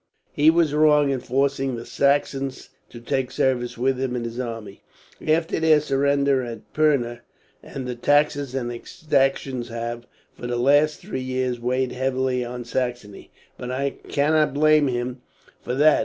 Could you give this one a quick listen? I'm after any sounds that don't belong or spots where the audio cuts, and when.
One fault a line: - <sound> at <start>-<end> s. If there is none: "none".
none